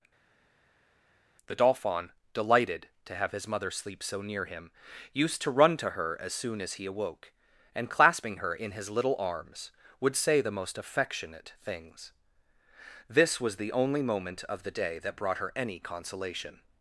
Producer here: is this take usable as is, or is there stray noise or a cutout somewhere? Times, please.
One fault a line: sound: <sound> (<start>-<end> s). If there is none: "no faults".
no faults